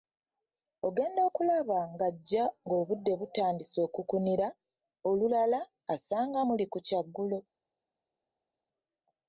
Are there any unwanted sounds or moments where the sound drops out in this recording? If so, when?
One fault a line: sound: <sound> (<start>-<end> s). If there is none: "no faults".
no faults